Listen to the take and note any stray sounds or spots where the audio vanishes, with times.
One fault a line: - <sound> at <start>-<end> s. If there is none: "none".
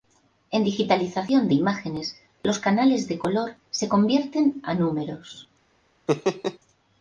- laugh at 6.1-6.6 s